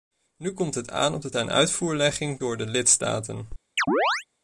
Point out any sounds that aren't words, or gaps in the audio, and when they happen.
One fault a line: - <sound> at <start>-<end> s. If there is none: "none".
- chirp at 3.8-4.2 s